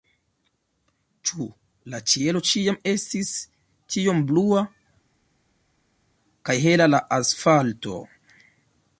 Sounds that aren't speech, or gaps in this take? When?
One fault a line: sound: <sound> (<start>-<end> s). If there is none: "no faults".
no faults